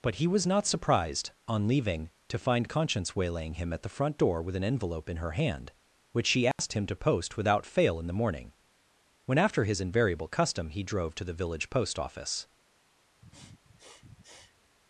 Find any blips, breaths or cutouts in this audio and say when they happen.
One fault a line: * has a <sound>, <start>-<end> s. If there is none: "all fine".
* has a dropout, 6.5-6.6 s
* has a sniff, 13.2-14.8 s